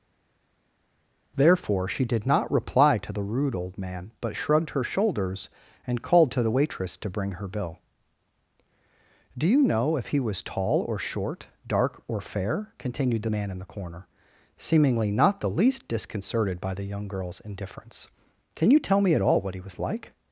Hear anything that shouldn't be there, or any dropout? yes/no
no